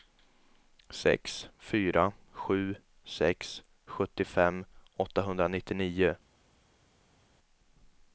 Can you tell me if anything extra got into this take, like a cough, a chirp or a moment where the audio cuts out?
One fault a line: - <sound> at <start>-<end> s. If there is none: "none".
none